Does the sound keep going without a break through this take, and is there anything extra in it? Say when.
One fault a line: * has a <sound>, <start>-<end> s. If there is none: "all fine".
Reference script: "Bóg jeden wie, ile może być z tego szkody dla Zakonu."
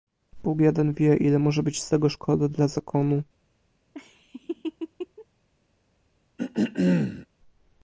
* has a laugh, 3.9-5.3 s
* has a throat clearing, 6.4-7.3 s